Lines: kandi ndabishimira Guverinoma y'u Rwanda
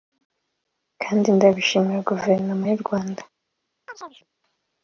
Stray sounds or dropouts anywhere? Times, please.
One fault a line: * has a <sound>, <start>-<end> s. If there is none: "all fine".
* has a chirp, 3.9-4.3 s